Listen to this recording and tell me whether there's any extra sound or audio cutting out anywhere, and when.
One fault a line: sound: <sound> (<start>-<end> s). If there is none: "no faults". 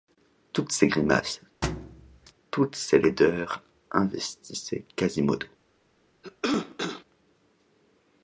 sound: thud (1.6-2.3 s)
sound: cough (6.2-7.0 s)